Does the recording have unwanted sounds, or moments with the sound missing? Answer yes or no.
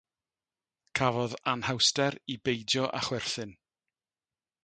no